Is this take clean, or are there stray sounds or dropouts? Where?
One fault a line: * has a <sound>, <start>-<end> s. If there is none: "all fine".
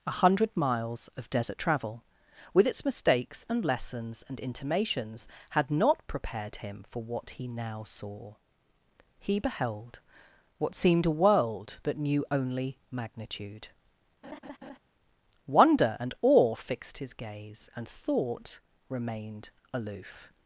* has a laugh, 14.2-14.8 s